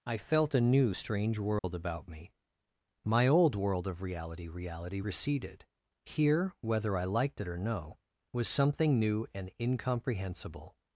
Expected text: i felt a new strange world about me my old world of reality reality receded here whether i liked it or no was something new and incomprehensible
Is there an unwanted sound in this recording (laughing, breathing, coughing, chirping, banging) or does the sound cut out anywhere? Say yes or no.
yes